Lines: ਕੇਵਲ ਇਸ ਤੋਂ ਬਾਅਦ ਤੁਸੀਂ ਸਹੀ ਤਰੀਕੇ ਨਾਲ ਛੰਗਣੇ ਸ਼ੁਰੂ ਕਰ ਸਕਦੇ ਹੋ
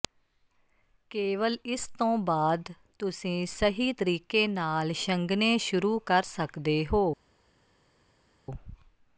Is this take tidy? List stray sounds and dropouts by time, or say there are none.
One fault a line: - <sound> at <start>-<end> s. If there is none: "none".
none